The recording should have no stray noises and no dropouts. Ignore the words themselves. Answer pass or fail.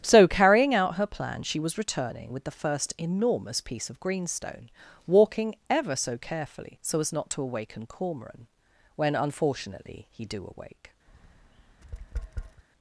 fail